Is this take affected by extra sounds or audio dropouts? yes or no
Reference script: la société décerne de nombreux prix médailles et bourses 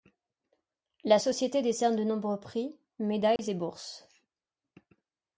yes